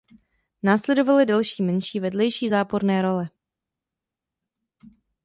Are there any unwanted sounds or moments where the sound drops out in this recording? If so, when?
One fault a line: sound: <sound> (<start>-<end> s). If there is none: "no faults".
no faults